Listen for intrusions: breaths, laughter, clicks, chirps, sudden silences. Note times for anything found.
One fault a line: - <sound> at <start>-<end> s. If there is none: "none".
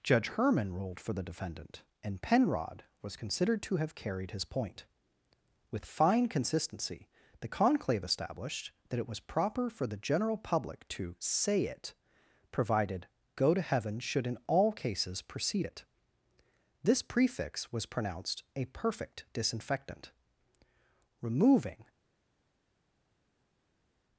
none